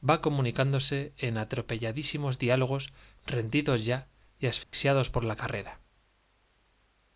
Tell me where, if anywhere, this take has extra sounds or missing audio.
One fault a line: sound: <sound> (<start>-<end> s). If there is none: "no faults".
sound: dropout (4.6-4.7 s)